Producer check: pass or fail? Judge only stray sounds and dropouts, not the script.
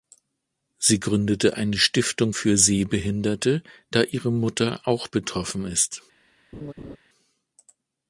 fail